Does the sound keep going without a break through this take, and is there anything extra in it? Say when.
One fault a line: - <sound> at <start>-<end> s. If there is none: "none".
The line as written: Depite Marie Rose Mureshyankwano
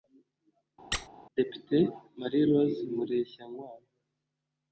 - squeak at 0.9-1.1 s